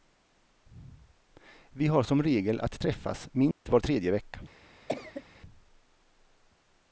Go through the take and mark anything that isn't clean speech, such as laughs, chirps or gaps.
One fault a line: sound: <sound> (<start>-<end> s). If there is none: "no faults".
sound: dropout (3.5-3.7 s)
sound: cough (4.9-5.2 s)